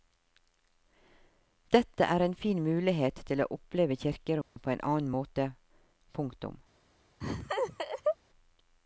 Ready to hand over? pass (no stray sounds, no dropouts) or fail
fail